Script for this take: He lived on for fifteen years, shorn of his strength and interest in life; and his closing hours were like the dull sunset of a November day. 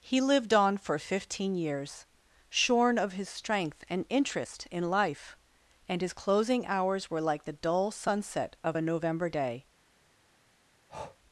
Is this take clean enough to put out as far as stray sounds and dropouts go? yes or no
no